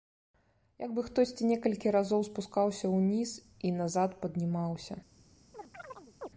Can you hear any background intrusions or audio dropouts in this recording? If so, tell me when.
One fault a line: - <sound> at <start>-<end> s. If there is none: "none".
- chirp at 5.5-6.3 s